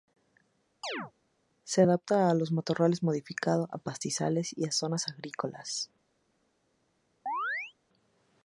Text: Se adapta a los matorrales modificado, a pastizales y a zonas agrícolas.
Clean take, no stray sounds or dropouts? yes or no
no